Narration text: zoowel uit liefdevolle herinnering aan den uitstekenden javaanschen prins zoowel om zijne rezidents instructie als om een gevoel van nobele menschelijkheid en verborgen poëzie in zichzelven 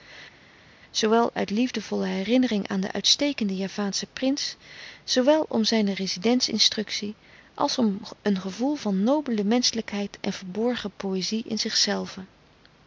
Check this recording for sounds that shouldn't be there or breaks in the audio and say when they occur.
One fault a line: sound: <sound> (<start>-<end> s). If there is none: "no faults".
no faults